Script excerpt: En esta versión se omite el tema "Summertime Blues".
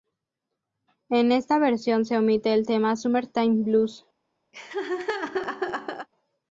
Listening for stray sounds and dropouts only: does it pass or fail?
fail